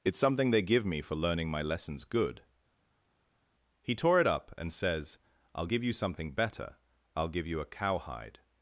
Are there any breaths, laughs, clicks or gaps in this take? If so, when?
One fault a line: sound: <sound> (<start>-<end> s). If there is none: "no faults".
no faults